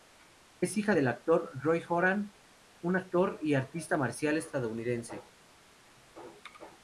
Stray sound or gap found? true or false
false